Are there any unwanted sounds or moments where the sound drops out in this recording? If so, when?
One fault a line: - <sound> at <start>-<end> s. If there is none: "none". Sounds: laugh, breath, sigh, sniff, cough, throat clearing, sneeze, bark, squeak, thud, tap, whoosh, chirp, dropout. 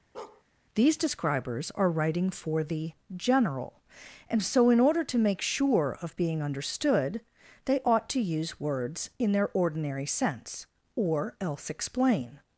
- bark at 0.1-0.4 s